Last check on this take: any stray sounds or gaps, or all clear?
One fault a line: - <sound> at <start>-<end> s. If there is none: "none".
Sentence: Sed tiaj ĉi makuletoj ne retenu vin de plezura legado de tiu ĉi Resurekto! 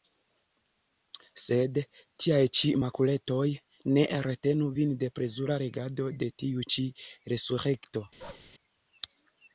- bark at 8.2-8.5 s